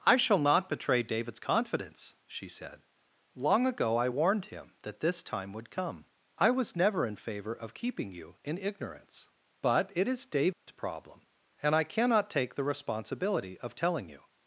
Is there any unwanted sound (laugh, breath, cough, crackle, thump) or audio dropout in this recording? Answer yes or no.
yes